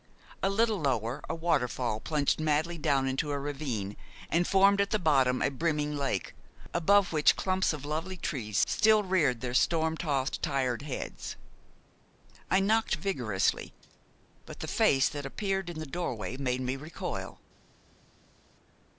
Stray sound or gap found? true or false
false